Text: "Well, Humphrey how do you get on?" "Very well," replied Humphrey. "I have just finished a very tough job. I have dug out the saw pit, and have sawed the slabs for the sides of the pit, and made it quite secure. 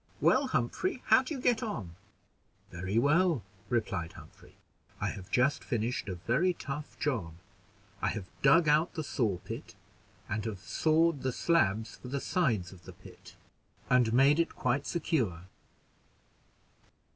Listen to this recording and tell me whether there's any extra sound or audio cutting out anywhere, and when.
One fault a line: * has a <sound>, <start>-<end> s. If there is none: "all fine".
all fine